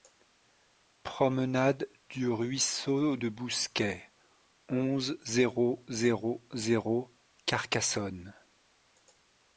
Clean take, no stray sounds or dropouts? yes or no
yes